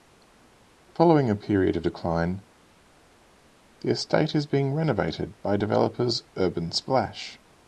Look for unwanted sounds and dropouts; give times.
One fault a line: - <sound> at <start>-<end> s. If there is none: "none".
none